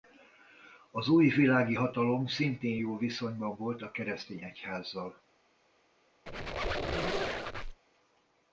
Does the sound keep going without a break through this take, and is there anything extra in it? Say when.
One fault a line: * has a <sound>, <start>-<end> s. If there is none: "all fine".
* has a squeak, 6.3-7.8 s